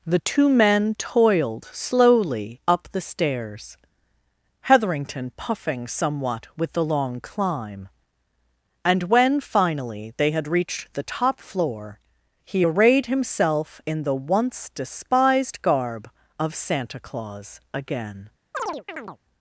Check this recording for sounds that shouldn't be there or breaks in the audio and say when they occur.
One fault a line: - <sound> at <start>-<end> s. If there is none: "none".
- chirp at 18.5-19.2 s